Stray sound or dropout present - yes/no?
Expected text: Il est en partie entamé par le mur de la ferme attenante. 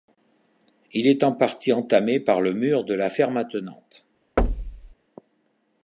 yes